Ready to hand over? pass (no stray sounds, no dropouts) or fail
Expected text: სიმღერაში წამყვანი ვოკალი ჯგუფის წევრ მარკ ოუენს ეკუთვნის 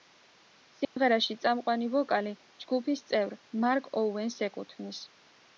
fail